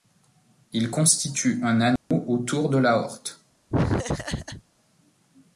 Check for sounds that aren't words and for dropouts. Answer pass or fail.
fail